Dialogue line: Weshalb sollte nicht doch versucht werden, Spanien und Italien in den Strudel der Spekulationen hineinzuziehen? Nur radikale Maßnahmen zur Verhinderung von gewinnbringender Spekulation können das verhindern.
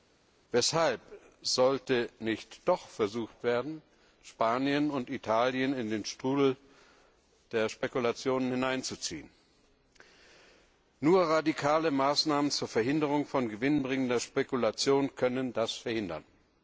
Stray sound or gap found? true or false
false